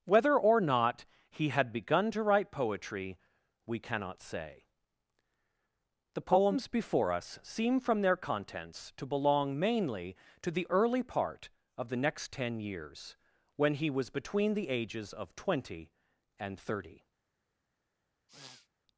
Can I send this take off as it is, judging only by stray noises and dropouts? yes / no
no